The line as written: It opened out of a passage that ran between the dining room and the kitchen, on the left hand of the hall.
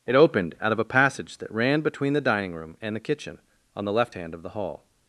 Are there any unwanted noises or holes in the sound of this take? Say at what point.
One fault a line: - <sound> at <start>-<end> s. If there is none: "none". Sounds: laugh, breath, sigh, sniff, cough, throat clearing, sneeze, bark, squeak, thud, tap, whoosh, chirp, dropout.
none